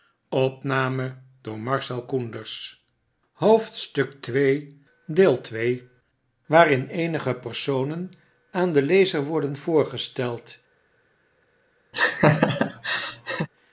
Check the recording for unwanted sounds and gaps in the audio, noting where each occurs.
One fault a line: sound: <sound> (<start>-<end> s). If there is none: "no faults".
sound: laugh (11.9-13.5 s)